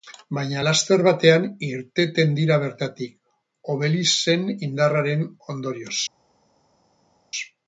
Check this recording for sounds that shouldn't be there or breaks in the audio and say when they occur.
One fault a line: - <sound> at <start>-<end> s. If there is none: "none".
none